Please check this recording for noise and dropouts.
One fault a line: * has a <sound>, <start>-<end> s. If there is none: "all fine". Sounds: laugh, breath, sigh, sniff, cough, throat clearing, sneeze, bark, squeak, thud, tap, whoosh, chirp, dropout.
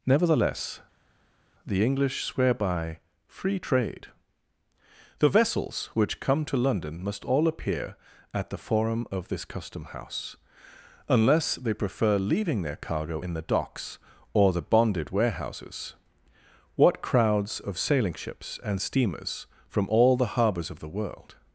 all fine